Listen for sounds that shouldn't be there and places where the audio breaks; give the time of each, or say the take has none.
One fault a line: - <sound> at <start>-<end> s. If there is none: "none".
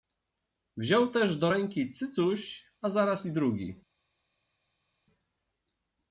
none